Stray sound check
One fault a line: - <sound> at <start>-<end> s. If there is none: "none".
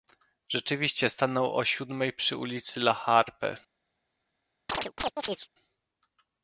- chirp at 4.7-5.5 s